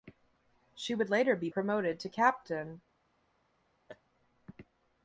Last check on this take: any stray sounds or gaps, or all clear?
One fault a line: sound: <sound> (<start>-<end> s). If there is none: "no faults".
sound: laugh (3.9-4.0 s)